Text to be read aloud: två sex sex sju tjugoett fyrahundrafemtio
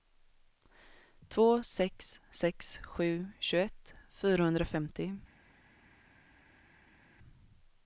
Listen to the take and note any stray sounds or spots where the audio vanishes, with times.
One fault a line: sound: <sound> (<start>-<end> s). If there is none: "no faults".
no faults